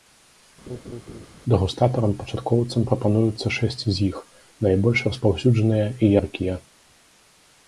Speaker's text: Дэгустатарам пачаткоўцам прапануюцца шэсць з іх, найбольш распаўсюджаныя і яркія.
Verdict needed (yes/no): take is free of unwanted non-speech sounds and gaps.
no